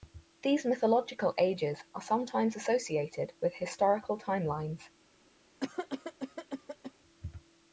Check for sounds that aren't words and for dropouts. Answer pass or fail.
fail